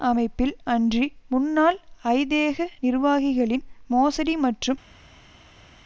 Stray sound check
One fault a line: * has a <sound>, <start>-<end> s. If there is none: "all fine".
all fine